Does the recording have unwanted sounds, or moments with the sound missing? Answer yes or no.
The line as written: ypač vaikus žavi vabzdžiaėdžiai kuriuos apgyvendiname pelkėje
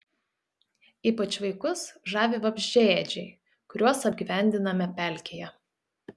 no